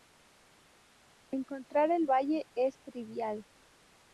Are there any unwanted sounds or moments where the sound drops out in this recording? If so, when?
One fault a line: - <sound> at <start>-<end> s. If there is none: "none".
none